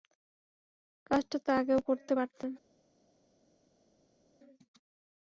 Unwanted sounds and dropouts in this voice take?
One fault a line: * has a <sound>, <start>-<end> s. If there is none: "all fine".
all fine